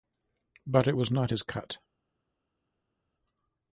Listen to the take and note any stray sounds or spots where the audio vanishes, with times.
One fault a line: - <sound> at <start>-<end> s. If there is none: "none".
none